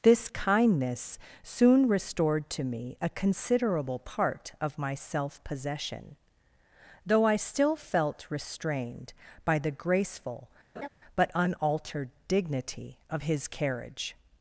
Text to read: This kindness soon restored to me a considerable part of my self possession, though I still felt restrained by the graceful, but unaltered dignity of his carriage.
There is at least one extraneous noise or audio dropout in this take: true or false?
true